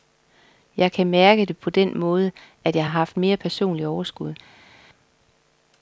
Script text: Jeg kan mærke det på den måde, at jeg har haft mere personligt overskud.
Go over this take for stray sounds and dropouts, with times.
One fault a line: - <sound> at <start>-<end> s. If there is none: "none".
none